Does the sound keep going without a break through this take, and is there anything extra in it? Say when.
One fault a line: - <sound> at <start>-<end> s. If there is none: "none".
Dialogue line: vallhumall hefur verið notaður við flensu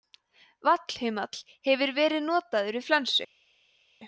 none